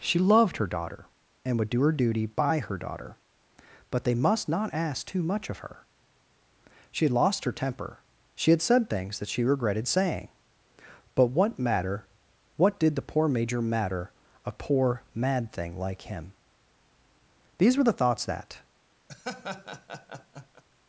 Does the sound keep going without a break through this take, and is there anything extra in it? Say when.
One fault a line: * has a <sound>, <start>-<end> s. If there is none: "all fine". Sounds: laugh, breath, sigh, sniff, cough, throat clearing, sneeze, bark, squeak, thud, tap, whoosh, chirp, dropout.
* has a laugh, 19.1-20.6 s